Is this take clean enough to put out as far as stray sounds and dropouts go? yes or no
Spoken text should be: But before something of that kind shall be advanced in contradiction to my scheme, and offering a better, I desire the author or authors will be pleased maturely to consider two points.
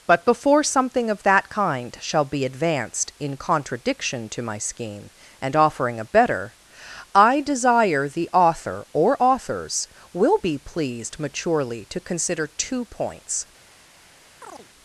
no